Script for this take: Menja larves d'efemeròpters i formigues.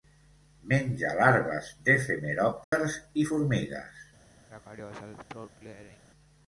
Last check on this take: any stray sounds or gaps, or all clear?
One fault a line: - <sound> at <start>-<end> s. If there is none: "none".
- dropout at 2.6-2.7 s
- throat clearing at 4.5-6.0 s